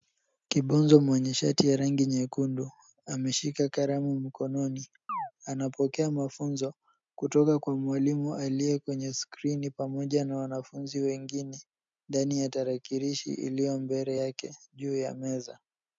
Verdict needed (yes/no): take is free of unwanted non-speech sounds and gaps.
no